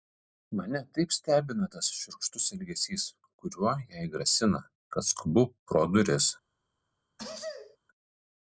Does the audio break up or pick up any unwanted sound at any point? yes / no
yes